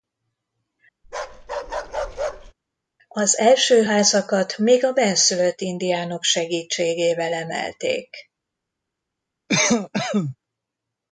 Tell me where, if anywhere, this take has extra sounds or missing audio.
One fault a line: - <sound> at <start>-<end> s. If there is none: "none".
- bark at 1.0-2.5 s
- cough at 9.5-10.4 s